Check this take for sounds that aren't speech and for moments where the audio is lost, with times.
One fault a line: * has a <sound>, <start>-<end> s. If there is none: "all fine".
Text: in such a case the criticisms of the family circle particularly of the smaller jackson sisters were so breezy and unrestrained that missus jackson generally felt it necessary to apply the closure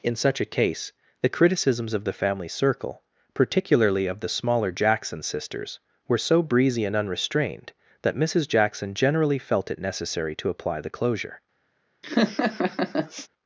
* has a laugh, 12.0-13.3 s